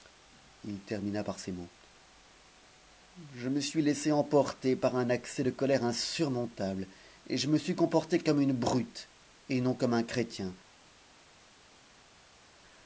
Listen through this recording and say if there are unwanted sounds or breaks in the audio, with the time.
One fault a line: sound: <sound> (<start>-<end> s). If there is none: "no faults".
no faults